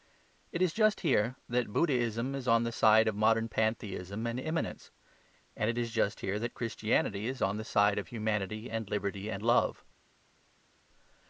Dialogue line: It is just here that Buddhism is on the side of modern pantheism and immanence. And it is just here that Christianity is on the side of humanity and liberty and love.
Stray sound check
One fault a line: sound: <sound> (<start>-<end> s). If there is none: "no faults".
no faults